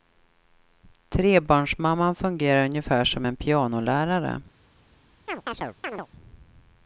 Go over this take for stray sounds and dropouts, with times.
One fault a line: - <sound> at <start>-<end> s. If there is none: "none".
- chirp at 5.3-6.1 s